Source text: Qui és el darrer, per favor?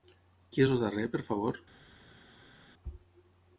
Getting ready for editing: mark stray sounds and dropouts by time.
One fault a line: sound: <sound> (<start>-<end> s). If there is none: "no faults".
no faults